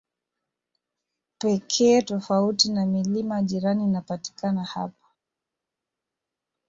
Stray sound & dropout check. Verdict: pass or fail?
pass